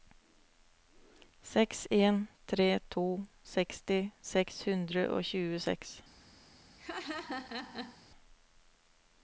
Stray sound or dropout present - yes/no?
yes